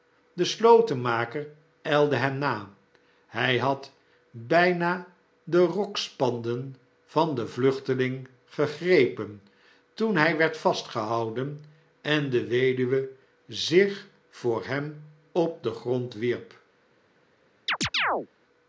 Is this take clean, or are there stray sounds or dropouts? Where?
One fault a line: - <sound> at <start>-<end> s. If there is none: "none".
- chirp at 17.7-18.3 s